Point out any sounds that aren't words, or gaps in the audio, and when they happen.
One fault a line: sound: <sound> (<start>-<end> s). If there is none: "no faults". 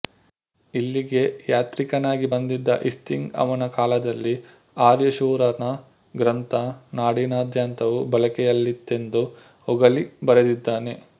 no faults